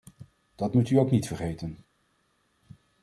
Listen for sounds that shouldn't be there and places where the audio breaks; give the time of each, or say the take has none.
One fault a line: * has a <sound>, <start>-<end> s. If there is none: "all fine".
all fine